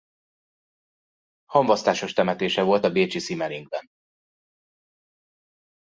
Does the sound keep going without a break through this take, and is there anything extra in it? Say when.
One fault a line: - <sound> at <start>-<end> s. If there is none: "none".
none